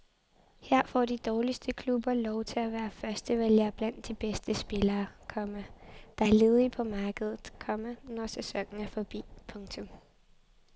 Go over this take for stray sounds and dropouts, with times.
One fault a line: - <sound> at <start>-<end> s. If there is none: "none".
none